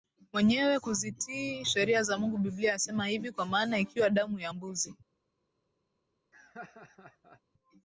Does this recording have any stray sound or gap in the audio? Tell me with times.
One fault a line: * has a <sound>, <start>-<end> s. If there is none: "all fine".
* has a laugh, 6.3-7.4 s